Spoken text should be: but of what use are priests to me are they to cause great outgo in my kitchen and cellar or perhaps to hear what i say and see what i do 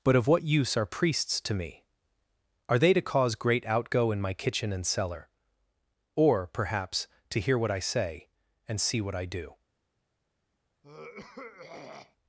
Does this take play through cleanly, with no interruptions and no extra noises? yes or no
no